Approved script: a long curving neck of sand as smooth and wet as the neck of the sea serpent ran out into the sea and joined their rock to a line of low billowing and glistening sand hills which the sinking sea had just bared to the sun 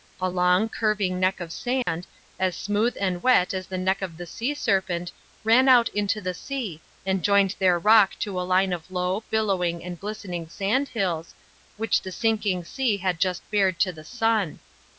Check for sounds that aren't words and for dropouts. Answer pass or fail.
fail